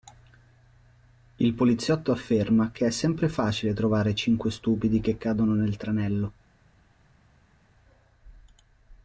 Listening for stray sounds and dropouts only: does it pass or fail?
pass